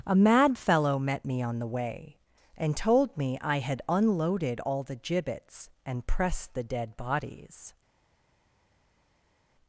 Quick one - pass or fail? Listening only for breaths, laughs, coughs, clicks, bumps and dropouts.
pass